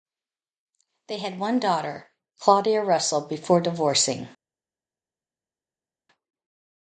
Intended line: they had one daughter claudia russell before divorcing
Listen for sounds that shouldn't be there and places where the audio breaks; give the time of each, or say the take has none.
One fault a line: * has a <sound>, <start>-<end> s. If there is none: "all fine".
all fine